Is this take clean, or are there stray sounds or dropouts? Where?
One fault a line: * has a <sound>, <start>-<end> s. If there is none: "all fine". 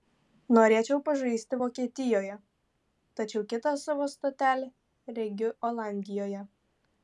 all fine